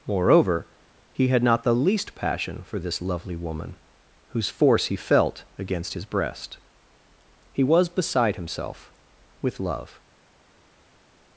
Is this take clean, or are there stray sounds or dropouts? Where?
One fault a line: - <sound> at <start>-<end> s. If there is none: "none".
none